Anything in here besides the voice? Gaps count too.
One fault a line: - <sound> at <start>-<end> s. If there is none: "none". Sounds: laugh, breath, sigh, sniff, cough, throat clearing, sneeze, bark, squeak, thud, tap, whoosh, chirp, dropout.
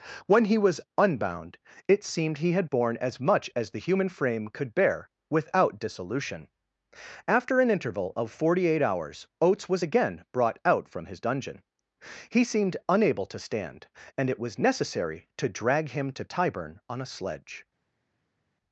none